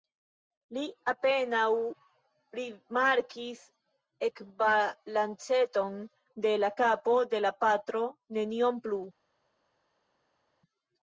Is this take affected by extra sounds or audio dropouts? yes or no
no